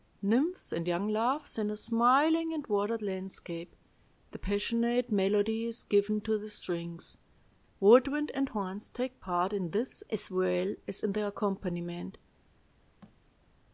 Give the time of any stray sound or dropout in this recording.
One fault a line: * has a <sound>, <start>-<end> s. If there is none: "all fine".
* has a thud, 13.0-13.2 s